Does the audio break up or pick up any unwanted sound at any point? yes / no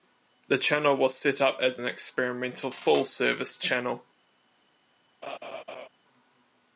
yes